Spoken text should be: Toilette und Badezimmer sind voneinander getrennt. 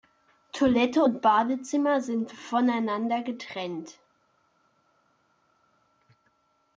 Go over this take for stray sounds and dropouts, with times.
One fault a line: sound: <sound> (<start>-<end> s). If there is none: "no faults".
no faults